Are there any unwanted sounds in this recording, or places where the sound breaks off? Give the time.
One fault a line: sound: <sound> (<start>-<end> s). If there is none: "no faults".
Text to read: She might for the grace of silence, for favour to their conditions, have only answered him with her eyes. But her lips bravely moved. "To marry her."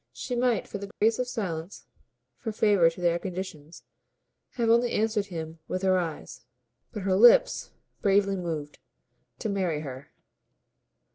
sound: dropout (0.9-1.0 s)